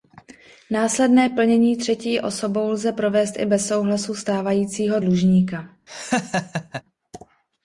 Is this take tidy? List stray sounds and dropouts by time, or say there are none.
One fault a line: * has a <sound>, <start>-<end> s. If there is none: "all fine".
* has a laugh, 5.9-6.8 s